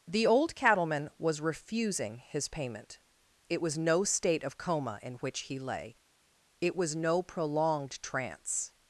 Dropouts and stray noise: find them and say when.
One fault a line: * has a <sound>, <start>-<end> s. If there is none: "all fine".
all fine